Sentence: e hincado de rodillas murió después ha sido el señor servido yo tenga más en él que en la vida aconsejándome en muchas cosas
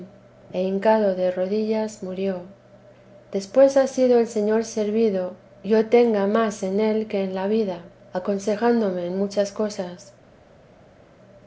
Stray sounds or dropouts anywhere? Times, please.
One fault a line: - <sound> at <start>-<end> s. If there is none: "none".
none